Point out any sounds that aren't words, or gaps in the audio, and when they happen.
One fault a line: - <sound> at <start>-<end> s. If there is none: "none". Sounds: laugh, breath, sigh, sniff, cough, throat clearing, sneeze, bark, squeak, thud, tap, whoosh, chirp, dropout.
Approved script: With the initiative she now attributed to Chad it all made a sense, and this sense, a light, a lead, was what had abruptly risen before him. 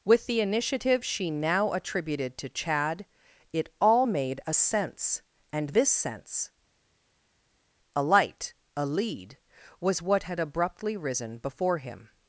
none